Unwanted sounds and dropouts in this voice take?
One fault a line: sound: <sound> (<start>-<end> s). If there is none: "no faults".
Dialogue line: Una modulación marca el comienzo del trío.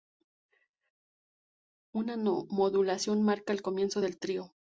no faults